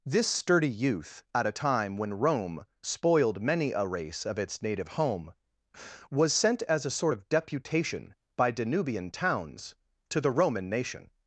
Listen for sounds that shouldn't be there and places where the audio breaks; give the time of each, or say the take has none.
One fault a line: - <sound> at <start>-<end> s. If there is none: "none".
none